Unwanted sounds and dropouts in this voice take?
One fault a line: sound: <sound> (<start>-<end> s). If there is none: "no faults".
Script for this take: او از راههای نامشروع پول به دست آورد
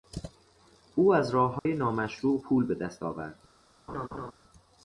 sound: dropout (1.6-1.7 s)
sound: laugh (3.9-4.3 s)